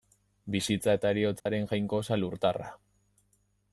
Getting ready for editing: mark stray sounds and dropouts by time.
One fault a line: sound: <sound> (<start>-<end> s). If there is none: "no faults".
sound: dropout (1.4-1.5 s)